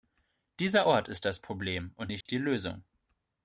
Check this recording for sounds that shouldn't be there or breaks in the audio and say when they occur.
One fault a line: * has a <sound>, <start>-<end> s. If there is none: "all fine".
* has a dropout, 2.2-2.3 s